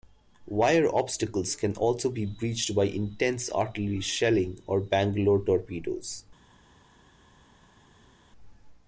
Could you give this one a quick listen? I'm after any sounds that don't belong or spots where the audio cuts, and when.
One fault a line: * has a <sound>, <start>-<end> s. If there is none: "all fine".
all fine